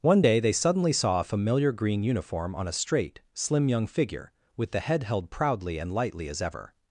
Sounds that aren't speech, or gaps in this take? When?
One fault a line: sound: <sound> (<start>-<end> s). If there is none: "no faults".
no faults